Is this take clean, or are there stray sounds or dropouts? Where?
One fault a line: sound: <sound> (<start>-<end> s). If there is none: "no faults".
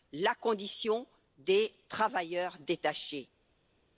no faults